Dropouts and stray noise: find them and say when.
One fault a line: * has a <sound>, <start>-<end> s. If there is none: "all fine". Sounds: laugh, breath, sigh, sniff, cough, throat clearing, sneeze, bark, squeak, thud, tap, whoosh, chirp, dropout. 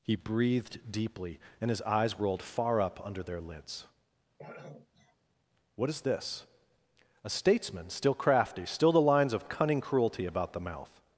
* has a throat clearing, 4.4-5.2 s